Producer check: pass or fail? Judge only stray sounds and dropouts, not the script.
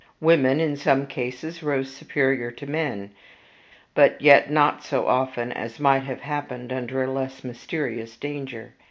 pass